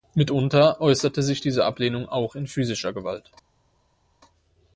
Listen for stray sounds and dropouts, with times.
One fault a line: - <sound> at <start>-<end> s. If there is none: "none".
none